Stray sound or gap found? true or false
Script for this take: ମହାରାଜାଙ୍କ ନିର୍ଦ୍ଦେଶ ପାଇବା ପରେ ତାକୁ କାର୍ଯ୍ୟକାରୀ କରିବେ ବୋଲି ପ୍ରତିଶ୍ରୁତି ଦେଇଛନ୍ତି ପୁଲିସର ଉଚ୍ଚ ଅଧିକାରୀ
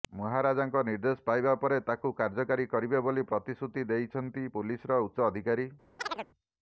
true